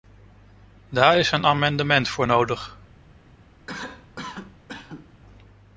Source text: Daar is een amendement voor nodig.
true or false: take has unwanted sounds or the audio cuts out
true